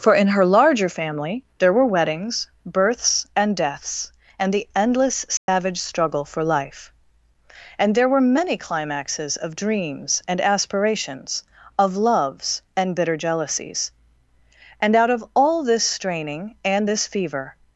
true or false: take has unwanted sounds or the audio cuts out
true